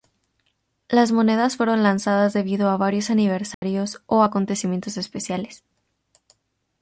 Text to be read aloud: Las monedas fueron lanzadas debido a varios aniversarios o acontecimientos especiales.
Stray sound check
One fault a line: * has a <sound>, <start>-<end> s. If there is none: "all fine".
* has a dropout, 3.5-3.6 s